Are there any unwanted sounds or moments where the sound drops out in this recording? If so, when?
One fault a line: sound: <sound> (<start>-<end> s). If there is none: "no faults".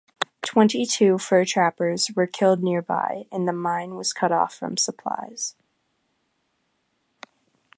no faults